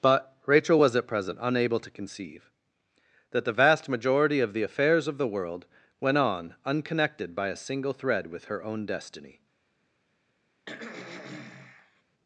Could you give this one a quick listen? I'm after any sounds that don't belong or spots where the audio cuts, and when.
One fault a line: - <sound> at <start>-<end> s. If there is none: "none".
- throat clearing at 10.7-12.0 s